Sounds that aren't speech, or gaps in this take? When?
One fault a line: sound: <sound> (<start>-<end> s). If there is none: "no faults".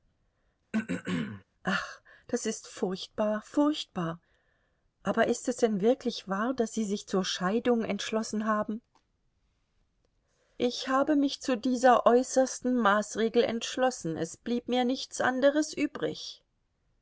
sound: throat clearing (0.7-1.4 s)